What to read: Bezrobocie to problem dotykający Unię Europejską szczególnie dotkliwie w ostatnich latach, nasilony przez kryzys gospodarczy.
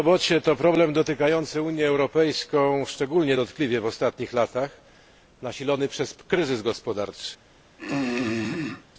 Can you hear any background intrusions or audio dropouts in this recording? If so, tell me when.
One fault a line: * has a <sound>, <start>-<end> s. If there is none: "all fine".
* has a throat clearing, 7.8-8.9 s